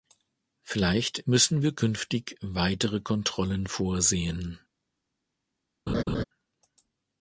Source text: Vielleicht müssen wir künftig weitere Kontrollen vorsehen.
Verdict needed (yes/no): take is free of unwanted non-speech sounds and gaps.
no